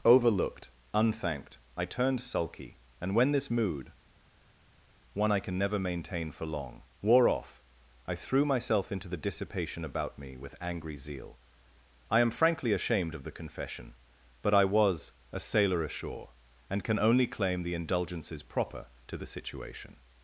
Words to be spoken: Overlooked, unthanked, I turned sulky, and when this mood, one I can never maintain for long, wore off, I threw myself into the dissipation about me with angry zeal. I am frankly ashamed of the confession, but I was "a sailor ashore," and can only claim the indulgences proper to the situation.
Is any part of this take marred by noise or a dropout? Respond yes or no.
no